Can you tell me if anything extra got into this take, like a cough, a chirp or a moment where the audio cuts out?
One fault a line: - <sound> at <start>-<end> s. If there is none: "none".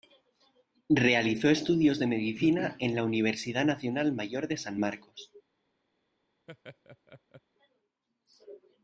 - laugh at 6.5-7.4 s